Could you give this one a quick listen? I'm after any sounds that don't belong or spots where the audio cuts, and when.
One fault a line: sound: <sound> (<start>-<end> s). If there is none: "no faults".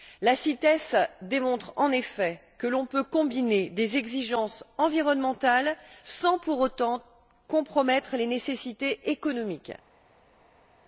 no faults